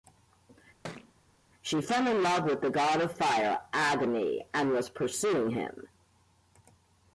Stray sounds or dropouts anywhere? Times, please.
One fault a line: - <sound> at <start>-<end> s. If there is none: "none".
- thud at 0.8-1.1 s